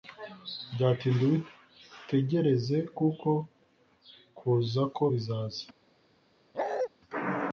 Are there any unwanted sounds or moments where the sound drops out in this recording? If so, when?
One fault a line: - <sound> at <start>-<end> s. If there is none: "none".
- bark at 6.5-6.9 s